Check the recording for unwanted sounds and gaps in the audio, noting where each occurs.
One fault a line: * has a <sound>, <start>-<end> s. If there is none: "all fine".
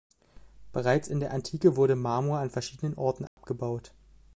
* has a dropout, 3.3-3.4 s